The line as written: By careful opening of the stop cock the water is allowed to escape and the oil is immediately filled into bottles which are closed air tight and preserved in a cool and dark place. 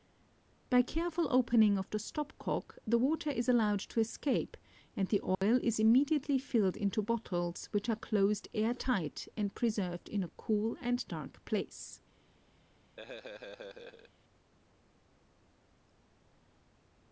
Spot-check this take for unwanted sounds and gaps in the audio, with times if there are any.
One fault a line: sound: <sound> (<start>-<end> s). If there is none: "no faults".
sound: dropout (5.3-5.4 s)
sound: laugh (13.0-14.1 s)